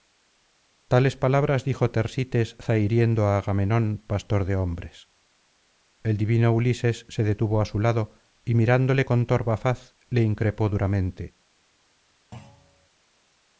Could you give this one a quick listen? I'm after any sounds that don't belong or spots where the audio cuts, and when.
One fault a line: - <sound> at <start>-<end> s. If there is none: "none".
- thud at 12.3-12.9 s